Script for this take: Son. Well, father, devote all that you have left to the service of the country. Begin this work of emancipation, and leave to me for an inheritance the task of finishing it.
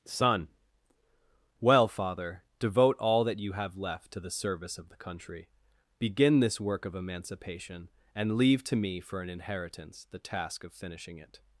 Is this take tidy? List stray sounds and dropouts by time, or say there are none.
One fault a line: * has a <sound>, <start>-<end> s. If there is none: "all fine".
all fine